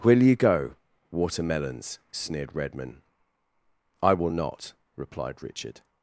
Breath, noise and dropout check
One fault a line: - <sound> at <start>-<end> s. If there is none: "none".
none